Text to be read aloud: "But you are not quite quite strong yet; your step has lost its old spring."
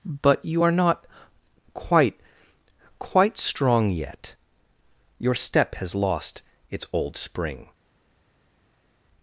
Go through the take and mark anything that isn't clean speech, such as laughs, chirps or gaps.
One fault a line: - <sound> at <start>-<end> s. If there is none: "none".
none